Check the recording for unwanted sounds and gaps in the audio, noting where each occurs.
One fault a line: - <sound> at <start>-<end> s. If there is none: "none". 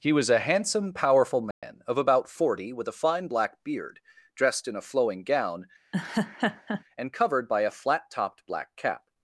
- dropout at 1.5-1.6 s
- laugh at 5.9-6.8 s